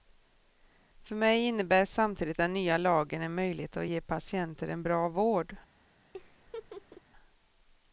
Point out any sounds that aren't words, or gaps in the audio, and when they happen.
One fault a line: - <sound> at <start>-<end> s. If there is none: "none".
- laugh at 6.1-7.0 s